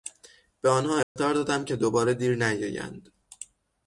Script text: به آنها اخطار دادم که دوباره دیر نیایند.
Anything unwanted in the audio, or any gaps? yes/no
yes